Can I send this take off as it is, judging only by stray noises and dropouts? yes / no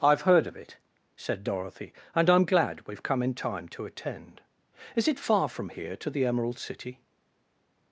yes